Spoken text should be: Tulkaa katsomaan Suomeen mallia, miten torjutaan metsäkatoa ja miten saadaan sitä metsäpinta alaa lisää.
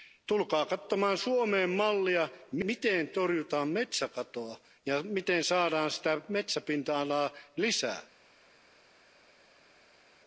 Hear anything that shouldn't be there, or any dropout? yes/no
no